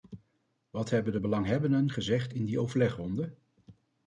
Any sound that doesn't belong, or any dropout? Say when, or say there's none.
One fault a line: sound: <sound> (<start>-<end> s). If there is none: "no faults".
no faults